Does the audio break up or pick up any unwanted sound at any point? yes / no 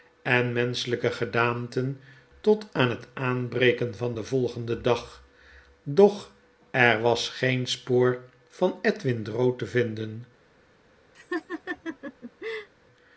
yes